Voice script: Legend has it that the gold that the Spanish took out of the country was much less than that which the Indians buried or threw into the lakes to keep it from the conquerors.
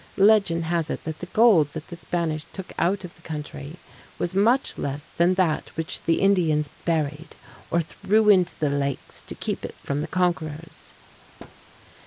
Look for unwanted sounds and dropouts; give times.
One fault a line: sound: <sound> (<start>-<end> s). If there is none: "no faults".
sound: thud (11.4-11.6 s)